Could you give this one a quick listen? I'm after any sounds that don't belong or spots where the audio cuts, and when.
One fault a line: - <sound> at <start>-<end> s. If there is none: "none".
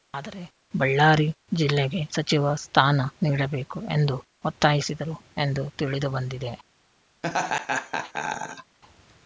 - laugh at 7.2-8.8 s